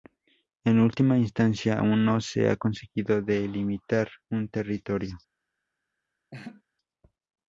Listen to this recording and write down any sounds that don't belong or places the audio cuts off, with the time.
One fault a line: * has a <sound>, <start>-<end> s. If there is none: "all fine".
* has a laugh, 6.3-6.6 s